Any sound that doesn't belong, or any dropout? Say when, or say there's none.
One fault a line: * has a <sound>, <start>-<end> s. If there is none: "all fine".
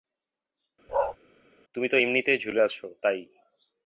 * has a bark, 0.9-1.2 s